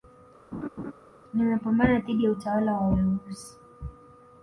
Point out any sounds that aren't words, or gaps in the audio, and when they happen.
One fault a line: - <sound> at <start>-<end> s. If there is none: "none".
- laugh at 0.5-0.9 s